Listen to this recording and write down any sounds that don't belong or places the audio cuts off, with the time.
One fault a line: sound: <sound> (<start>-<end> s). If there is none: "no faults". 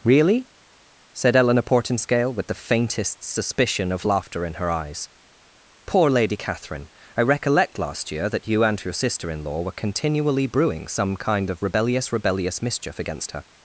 no faults